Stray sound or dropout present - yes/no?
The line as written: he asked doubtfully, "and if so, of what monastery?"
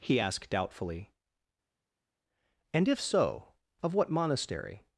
no